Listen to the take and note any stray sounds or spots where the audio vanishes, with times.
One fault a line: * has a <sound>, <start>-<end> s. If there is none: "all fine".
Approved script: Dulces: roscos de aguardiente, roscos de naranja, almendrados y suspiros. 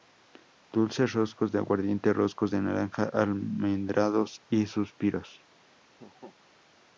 * has a laugh, 5.9-6.4 s